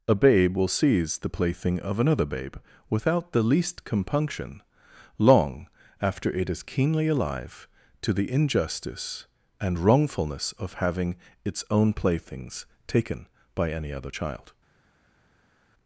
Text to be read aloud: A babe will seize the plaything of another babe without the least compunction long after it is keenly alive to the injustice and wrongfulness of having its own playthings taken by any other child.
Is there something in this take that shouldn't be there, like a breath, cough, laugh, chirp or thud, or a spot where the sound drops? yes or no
no